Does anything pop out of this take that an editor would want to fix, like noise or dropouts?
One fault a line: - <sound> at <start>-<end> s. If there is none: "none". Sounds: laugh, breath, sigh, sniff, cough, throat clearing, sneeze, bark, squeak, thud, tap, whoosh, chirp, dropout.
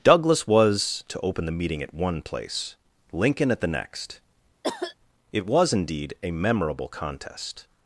- cough at 4.6-5.0 s